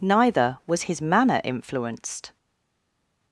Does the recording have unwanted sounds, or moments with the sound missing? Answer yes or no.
no